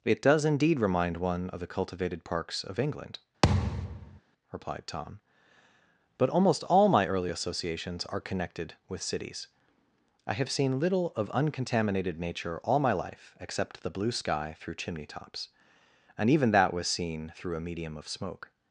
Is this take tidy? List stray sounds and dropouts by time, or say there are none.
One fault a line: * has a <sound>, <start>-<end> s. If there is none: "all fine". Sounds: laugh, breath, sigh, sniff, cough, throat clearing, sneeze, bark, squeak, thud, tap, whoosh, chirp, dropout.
* has a thud, 3.4-4.2 s